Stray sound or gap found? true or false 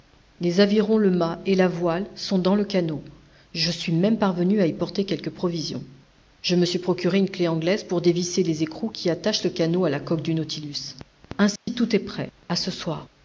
true